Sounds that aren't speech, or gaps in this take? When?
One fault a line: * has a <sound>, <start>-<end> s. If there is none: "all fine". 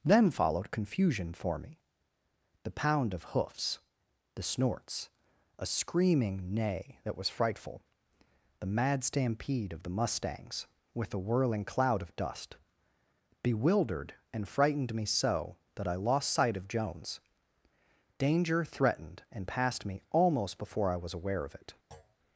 * has a thud, 21.9-22.2 s